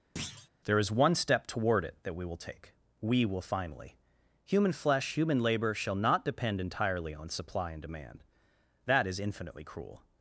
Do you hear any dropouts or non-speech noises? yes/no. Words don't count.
yes